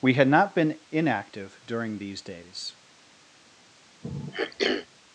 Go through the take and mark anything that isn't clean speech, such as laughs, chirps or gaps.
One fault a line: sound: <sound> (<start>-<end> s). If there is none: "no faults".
sound: throat clearing (4.0-4.9 s)